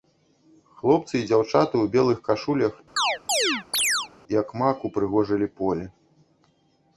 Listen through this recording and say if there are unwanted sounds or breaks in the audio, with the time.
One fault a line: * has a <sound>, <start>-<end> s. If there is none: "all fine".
* has a chirp, 3.0-4.1 s